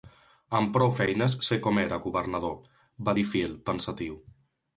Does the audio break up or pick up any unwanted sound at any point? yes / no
no